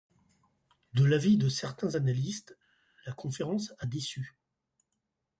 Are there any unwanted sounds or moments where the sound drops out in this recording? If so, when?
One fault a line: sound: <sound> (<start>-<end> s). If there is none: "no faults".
no faults